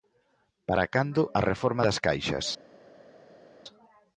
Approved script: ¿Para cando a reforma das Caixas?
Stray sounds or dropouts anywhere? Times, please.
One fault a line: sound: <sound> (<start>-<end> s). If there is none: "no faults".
no faults